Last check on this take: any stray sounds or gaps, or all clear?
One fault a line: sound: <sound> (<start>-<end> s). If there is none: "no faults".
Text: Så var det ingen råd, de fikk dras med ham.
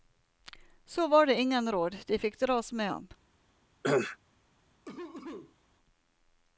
sound: cough (3.8-4.2 s)
sound: cough (4.8-5.6 s)